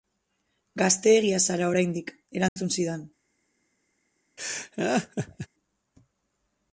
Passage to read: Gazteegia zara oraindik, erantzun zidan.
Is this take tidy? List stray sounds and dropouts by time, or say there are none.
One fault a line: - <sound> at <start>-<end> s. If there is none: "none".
- dropout at 2.5-2.6 s
- laugh at 4.4-5.5 s